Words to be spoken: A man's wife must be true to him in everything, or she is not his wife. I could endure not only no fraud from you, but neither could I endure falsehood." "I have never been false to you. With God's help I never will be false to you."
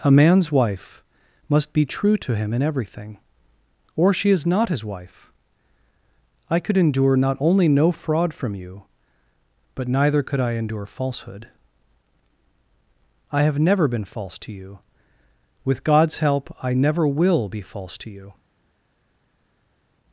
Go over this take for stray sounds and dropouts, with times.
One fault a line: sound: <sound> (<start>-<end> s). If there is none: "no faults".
no faults